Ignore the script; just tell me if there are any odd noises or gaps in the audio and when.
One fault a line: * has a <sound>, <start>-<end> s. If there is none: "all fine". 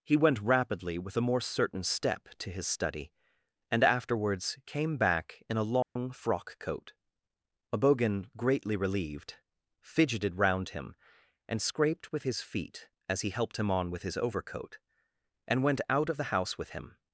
* has a dropout, 5.8-6.0 s